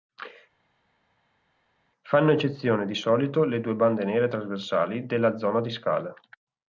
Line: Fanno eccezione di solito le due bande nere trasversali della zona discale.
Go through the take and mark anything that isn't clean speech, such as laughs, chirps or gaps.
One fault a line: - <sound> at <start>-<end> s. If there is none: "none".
none